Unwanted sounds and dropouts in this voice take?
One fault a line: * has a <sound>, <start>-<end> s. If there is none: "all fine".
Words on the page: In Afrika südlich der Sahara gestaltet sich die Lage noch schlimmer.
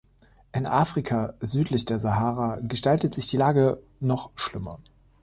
all fine